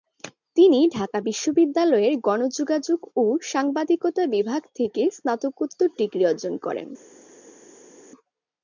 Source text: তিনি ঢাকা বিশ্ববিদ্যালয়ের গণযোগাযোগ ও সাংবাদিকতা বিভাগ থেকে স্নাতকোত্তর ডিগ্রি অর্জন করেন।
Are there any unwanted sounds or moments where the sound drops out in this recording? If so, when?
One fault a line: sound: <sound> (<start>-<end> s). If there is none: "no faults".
no faults